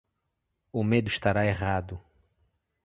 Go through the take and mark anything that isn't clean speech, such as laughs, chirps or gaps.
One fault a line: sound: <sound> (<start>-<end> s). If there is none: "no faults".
no faults